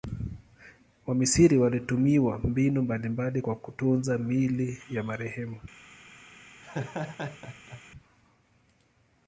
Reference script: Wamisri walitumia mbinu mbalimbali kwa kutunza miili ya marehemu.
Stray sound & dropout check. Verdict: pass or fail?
fail